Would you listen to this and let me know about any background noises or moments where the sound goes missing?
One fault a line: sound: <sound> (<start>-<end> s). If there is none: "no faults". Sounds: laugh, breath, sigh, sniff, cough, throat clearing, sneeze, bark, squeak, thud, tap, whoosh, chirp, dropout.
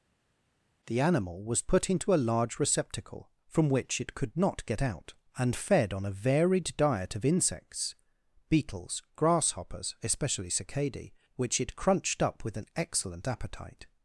no faults